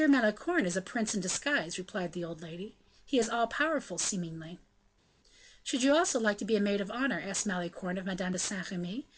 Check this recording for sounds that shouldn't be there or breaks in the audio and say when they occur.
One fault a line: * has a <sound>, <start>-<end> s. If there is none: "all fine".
all fine